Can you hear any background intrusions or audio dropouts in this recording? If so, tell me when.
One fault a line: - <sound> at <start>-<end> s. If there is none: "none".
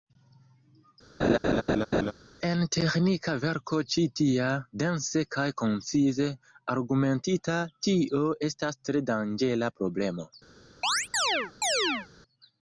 - laugh at 1.2-2.1 s
- chirp at 10.8-12.1 s